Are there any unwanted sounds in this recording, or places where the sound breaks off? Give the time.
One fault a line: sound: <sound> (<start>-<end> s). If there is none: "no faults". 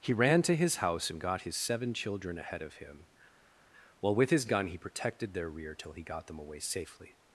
no faults